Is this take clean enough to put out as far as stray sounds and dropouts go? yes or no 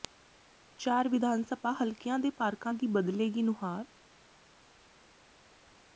yes